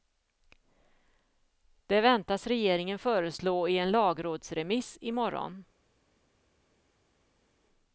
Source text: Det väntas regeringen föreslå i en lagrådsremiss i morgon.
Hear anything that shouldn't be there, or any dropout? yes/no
no